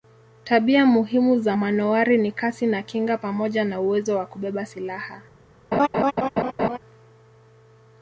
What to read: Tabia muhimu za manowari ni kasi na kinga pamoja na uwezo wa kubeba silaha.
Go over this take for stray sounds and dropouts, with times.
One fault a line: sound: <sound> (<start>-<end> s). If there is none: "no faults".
sound: laugh (5.7-6.8 s)